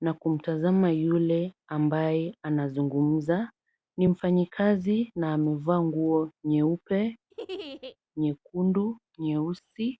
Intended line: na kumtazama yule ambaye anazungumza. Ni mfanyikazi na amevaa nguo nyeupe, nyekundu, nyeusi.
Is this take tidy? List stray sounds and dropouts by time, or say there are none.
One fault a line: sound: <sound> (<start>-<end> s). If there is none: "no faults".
sound: laugh (7.3-8.0 s)